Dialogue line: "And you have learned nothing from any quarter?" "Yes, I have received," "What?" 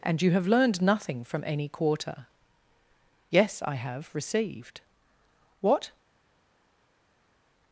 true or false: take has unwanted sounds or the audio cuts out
false